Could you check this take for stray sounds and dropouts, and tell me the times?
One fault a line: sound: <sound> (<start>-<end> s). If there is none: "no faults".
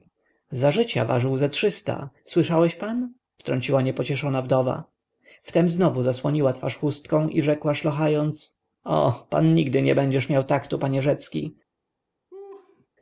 sound: laugh (12.3-12.9 s)